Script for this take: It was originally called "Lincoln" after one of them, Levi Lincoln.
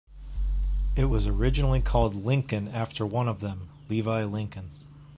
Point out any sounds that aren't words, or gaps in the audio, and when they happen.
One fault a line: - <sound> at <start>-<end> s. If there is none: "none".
none